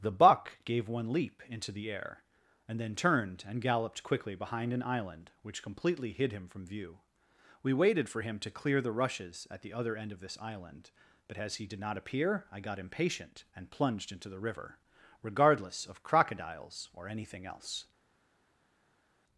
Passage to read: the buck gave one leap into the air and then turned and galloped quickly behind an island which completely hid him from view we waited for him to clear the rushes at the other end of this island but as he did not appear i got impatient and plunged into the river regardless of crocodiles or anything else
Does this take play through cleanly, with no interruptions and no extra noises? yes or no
yes